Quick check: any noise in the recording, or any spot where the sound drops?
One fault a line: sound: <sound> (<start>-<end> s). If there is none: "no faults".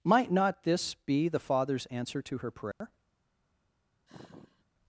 sound: dropout (2.7-2.8 s)
sound: sigh (4.1-4.6 s)